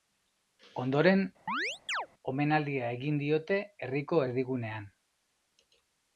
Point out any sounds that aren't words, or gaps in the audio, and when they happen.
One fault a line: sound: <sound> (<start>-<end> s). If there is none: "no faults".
sound: chirp (1.5-2.1 s)